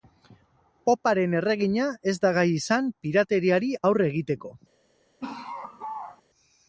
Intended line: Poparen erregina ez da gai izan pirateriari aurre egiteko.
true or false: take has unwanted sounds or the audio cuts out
true